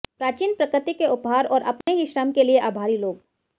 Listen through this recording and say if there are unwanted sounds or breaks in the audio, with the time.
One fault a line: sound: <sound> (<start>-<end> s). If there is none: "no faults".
sound: dropout (1.8-1.9 s)